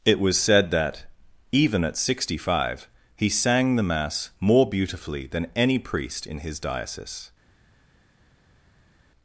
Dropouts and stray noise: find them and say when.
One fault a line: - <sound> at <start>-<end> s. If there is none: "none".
none